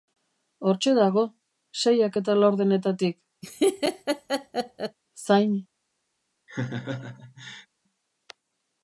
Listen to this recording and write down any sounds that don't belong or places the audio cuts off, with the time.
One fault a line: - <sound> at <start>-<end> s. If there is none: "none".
- laugh at 3.4-5.0 s
- laugh at 6.5-7.7 s